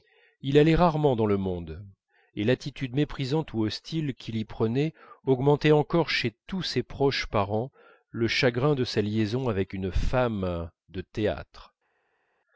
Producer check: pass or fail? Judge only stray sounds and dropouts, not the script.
pass